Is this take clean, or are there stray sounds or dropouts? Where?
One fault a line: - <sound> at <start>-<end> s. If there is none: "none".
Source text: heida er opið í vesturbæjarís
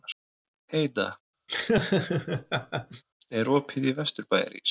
- laugh at 1.5-3.0 s